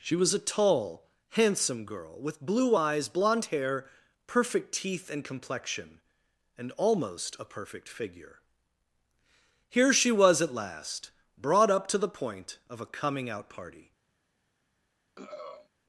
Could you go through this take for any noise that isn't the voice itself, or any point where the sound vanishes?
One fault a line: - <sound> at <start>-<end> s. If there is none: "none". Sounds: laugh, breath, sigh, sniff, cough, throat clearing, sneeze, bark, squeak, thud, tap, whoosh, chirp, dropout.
- throat clearing at 15.2-15.7 s